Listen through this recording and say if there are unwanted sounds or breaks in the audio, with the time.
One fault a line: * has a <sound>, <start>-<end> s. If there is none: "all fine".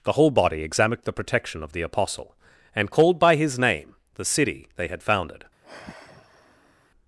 * has a sigh, 5.6-6.9 s